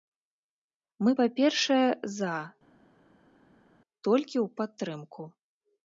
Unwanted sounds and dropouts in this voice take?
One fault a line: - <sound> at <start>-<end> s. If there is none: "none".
none